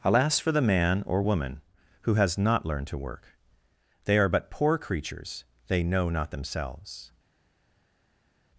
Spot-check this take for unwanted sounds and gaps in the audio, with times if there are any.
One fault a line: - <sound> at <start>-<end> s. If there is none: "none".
none